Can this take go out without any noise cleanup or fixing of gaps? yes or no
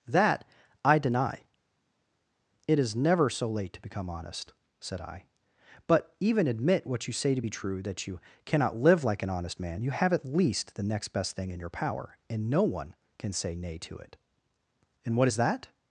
yes